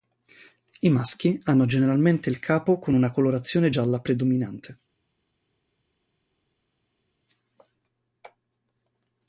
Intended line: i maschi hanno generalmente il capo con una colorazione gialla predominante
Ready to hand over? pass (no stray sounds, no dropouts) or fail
pass